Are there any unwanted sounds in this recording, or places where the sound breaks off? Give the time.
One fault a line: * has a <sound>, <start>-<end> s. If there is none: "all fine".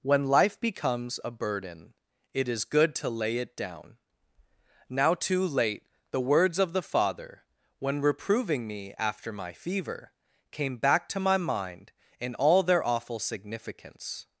all fine